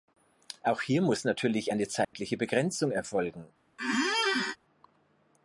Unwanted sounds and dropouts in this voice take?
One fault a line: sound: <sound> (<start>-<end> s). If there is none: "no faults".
sound: dropout (2.0-2.1 s)
sound: squeak (3.8-4.6 s)